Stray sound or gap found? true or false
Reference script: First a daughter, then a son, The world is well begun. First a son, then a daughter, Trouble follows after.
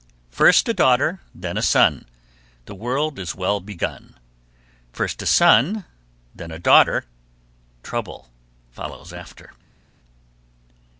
false